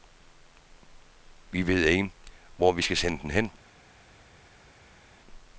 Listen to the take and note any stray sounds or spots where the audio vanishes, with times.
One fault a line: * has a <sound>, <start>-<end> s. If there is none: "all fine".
all fine